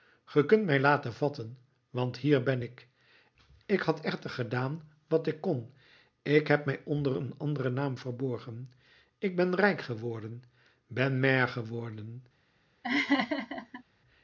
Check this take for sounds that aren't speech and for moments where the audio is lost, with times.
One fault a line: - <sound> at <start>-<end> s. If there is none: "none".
- laugh at 12.8-13.8 s